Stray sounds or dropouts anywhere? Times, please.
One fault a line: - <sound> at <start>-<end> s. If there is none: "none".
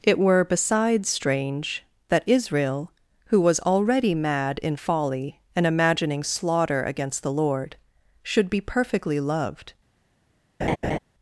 - laugh at 10.6-11.0 s